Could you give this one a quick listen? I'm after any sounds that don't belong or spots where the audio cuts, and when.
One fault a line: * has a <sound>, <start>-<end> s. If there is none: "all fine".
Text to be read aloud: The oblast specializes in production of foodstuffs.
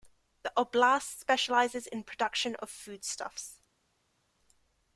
all fine